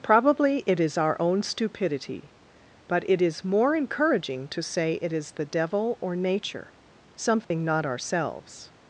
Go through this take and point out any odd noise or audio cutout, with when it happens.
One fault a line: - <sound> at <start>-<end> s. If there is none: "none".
- dropout at 7.4-7.5 s